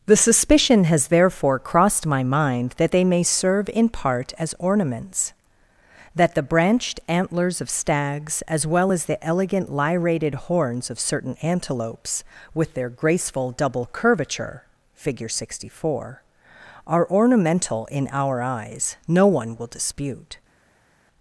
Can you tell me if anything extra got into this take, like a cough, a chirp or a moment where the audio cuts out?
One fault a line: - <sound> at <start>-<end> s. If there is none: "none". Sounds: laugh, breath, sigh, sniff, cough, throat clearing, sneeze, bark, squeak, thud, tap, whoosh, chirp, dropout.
none